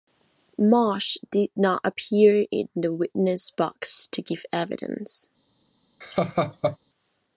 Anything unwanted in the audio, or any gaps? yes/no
yes